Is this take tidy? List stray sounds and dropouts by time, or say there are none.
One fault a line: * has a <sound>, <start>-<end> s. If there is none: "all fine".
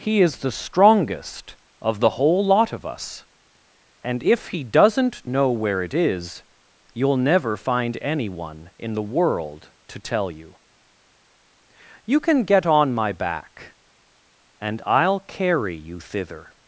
all fine